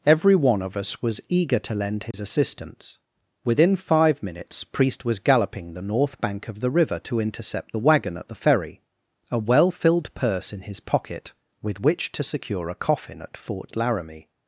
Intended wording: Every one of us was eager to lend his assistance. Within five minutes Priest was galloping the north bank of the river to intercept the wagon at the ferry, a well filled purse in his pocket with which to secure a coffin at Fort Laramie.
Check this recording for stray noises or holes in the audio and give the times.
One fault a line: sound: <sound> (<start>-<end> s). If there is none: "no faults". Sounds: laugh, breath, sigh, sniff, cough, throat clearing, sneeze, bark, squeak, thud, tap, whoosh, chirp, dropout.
sound: dropout (2.1-2.1 s)